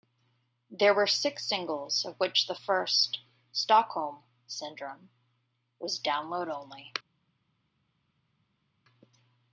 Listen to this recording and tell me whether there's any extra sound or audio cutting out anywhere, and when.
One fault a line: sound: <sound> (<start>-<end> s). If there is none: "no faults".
no faults